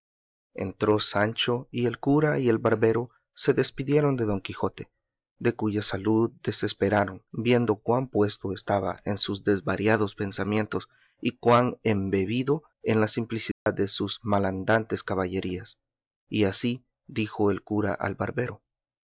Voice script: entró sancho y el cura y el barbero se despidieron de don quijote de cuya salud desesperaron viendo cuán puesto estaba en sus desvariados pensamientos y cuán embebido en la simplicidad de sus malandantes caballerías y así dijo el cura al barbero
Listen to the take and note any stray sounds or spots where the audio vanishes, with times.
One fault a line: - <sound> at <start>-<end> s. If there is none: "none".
- dropout at 13.5-13.7 s